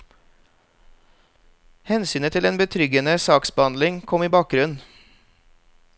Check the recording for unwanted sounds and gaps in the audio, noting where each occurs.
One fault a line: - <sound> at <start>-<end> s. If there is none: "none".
none